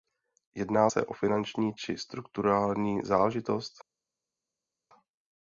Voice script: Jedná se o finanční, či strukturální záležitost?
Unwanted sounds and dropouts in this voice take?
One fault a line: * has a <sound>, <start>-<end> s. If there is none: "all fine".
all fine